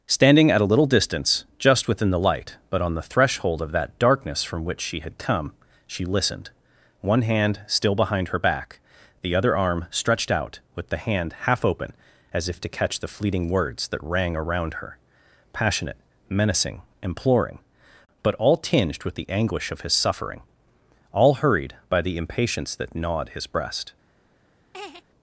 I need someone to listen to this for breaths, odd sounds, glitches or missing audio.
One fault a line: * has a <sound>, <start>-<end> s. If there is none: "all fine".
* has a laugh, 24.7-25.0 s